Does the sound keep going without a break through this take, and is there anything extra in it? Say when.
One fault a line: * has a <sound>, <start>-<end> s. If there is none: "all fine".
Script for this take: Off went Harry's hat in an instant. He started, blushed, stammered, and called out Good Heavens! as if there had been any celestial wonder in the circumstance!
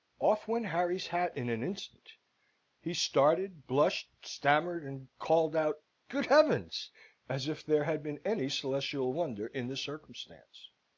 all fine